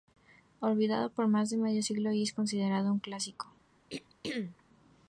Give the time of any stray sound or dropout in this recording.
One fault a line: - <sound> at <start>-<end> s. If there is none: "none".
- throat clearing at 3.9-4.6 s